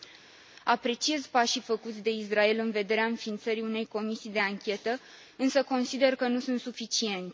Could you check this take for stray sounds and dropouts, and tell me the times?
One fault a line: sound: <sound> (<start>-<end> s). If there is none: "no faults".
no faults